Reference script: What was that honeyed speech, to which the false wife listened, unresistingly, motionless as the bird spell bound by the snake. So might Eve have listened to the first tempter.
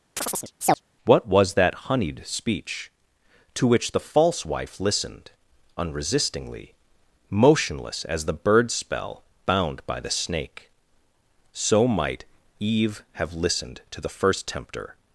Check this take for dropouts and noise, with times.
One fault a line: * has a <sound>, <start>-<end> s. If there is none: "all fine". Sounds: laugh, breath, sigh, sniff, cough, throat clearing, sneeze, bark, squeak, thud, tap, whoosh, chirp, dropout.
* has a chirp, 0.2-0.8 s